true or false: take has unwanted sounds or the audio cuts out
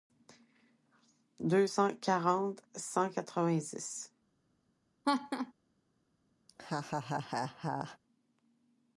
true